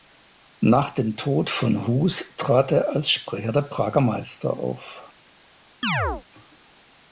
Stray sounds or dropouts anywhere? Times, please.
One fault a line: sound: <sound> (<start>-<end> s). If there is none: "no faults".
sound: chirp (5.8-6.2 s)